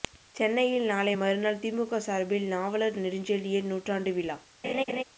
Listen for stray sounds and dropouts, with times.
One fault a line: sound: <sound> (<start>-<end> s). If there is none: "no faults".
sound: laugh (4.6-5.0 s)